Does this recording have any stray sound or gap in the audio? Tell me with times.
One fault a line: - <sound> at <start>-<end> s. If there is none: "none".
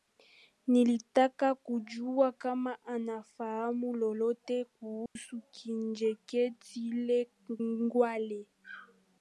- dropout at 5.1-5.2 s